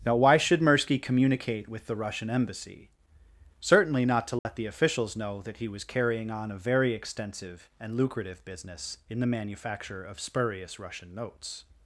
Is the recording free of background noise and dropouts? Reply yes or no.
no